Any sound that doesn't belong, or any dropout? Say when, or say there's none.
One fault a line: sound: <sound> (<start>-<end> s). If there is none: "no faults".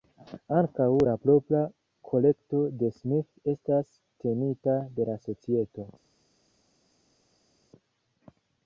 no faults